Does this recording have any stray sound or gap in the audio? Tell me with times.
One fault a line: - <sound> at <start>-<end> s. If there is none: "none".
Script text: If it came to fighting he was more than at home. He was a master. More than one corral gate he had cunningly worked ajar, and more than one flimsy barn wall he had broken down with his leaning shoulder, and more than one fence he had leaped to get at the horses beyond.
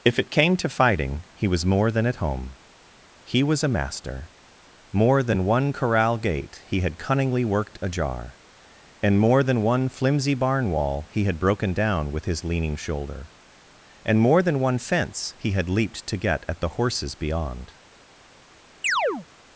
- chirp at 18.8-19.3 s